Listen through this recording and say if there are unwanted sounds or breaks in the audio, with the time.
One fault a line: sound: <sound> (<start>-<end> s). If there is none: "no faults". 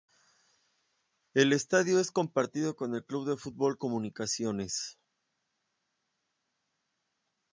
no faults